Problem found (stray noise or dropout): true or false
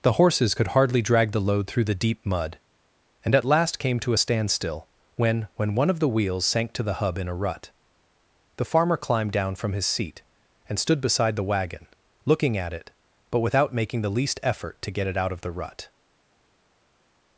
false